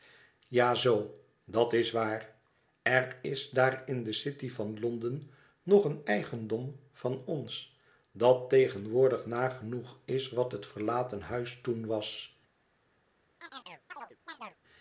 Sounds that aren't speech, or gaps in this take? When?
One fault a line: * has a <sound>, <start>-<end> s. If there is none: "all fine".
* has a chirp, 13.4-14.6 s